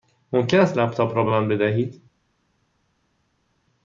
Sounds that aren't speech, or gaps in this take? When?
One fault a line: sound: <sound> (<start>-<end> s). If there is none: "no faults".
no faults